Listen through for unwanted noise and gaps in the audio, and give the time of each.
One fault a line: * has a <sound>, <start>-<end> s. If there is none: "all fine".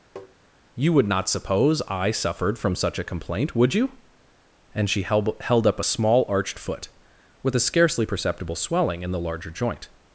* has a tap, 0.2-0.4 s